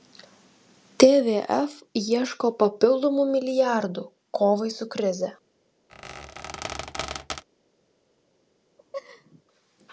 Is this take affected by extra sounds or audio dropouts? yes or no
yes